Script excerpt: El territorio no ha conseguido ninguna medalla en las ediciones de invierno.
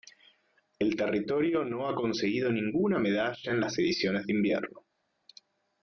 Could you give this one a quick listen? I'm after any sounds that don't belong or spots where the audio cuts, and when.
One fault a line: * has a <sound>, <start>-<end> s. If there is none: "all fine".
all fine